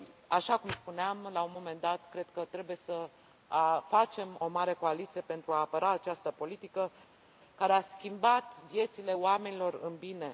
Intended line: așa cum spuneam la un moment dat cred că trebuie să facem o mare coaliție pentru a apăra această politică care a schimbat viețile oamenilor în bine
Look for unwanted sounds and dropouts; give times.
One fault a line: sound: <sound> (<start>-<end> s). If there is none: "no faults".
no faults